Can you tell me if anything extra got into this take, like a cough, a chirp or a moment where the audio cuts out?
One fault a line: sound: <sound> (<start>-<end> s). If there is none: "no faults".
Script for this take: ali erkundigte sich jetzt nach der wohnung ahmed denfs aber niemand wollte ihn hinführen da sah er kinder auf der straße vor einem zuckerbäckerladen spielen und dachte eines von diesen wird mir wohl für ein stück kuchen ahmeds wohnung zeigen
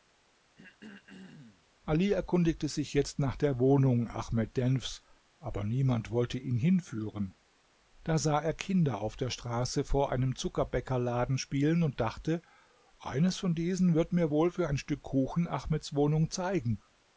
sound: throat clearing (0.6-1.7 s)